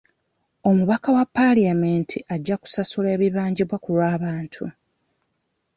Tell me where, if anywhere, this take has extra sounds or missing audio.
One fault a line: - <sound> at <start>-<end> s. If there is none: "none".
none